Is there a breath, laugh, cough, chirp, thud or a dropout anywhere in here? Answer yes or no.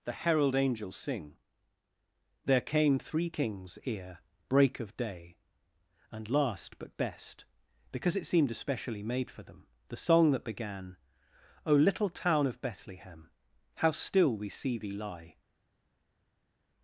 no